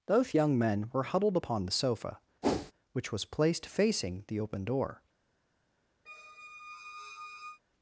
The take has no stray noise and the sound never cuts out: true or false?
false